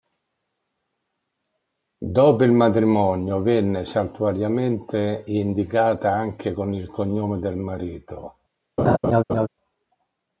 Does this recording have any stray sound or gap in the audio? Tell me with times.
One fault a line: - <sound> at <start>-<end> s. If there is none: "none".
- laugh at 8.8-9.5 s